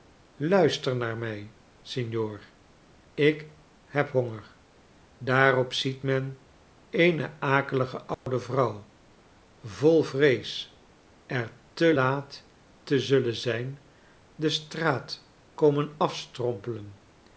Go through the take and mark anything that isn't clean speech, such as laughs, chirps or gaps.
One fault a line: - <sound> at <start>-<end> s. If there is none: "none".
- dropout at 8.1-8.3 s